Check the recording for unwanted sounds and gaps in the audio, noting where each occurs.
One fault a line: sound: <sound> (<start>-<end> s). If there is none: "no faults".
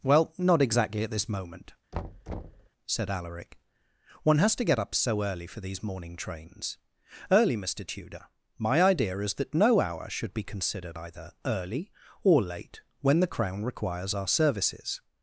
sound: thud (1.9-2.7 s)